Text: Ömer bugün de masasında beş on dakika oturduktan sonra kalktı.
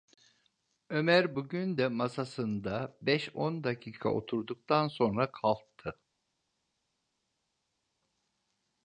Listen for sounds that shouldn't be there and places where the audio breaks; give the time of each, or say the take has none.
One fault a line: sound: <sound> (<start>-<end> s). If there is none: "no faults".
no faults